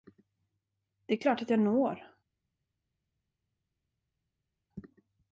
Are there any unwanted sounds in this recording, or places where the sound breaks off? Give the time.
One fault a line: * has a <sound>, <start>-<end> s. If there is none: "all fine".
all fine